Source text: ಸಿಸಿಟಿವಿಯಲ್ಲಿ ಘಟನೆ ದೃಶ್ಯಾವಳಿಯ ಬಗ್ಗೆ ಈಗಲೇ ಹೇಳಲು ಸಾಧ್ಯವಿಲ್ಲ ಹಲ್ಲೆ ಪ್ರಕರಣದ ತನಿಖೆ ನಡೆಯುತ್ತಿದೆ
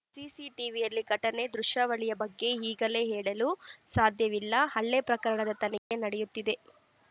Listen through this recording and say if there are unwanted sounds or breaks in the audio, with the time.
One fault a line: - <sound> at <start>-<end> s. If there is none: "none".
- dropout at 5.8-5.9 s